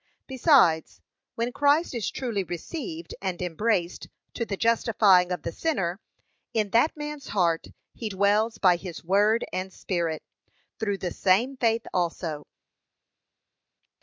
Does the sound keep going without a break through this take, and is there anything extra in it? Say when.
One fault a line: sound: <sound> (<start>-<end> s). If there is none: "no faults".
no faults